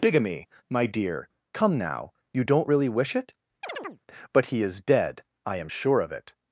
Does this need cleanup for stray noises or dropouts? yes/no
yes